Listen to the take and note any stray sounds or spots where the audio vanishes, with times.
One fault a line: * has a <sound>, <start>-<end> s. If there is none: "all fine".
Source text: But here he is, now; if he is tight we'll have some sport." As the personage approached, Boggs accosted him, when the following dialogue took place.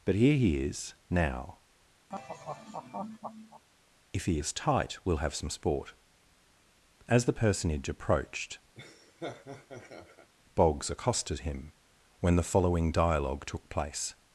* has a laugh, 2.1-3.6 s
* has a laugh, 8.8-10.3 s